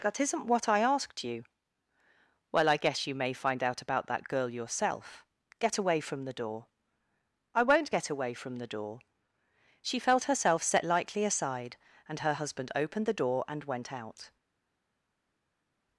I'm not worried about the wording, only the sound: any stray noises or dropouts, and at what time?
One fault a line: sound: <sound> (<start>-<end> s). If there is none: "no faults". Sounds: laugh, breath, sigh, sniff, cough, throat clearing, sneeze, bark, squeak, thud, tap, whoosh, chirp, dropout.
no faults